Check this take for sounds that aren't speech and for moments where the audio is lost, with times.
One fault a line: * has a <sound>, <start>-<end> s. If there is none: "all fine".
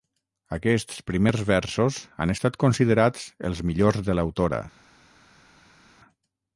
all fine